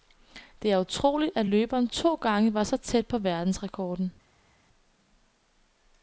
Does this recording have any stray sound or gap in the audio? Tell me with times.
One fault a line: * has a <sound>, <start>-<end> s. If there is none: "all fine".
all fine